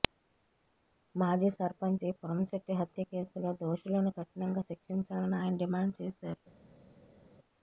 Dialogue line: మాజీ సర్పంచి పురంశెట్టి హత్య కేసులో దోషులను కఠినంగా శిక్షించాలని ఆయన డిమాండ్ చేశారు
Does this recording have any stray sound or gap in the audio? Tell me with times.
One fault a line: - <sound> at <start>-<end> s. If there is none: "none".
none